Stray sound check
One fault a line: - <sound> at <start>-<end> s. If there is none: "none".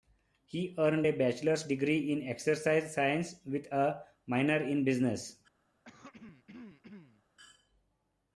- throat clearing at 5.8-7.2 s